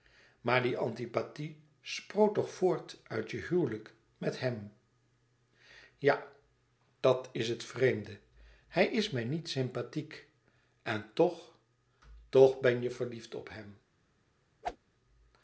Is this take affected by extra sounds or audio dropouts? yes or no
yes